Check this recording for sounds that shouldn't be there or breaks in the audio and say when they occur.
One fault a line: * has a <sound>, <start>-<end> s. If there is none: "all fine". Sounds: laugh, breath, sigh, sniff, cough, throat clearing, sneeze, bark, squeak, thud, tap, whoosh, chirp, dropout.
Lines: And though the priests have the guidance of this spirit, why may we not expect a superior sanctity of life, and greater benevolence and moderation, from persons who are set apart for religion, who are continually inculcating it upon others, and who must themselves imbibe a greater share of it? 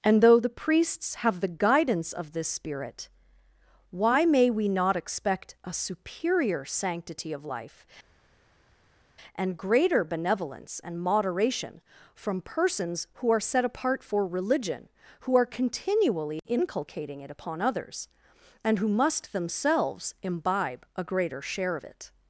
all fine